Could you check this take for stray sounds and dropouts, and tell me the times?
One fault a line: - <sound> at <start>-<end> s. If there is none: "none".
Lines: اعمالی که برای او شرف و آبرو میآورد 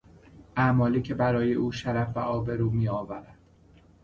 none